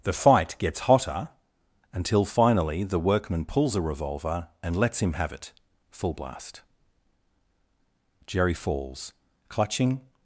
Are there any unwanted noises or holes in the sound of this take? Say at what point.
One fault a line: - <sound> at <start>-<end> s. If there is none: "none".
none